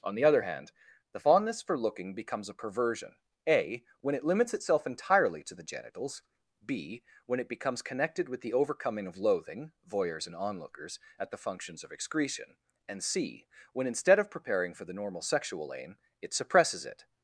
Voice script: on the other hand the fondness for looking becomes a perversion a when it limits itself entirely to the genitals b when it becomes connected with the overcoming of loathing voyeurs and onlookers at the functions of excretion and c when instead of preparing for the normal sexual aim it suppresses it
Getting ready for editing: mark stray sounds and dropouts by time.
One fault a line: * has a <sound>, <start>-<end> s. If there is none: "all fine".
all fine